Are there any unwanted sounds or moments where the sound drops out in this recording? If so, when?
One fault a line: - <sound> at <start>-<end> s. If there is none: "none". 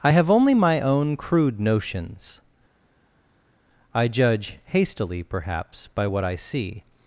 none